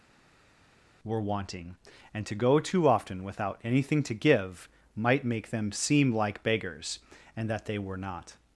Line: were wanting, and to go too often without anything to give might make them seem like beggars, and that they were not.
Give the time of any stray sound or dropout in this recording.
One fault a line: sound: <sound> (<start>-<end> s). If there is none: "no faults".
no faults